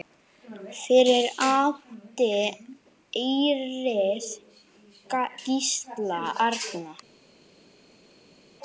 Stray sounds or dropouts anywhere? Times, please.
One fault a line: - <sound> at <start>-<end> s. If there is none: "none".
none